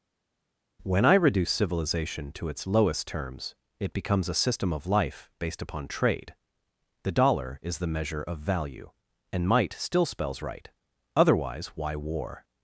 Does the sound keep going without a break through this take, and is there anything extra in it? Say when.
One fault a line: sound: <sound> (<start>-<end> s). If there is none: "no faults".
no faults